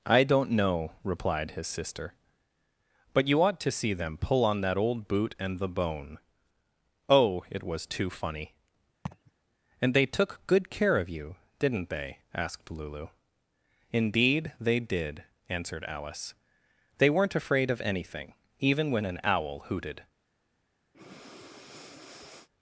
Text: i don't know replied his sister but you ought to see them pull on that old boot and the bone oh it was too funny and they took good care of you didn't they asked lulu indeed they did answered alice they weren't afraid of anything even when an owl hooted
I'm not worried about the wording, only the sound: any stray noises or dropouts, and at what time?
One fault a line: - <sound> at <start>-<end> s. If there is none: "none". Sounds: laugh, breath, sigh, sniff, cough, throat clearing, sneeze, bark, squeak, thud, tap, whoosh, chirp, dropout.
- laugh at 9.1-9.3 s
- breath at 20.9-22.5 s